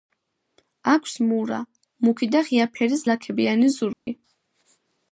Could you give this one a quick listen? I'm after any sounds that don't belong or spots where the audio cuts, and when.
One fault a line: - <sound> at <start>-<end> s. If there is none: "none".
- dropout at 3.9-4.1 s